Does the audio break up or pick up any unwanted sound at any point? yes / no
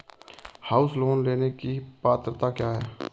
no